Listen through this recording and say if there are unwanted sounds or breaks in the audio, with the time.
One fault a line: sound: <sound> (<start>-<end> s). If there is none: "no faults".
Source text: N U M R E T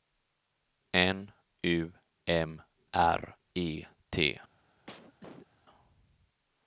sound: cough (4.9-5.5 s)